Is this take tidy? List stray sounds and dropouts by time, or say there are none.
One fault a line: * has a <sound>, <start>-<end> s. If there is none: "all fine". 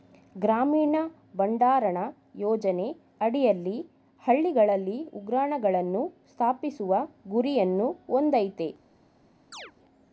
* has a chirp, 9.5-9.7 s